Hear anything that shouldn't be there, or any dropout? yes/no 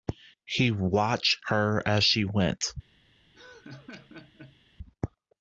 yes